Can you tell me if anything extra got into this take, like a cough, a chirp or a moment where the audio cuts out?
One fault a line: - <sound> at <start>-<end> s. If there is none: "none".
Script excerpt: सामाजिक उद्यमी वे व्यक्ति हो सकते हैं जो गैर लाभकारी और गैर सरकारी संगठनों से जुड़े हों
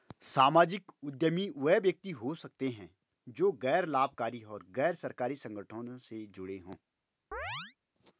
- chirp at 7.3-7.8 s